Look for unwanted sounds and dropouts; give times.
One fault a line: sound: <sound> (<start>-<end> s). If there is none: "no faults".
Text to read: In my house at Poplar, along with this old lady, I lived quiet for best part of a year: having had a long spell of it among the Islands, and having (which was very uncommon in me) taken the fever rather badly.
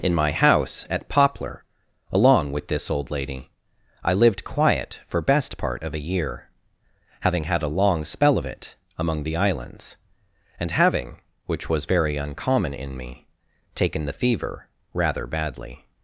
no faults